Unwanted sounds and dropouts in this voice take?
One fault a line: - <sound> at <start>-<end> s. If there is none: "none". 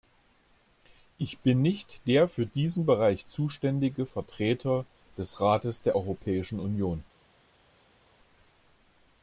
none